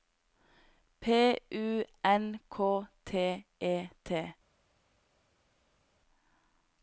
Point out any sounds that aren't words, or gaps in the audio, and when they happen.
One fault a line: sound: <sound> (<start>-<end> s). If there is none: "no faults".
no faults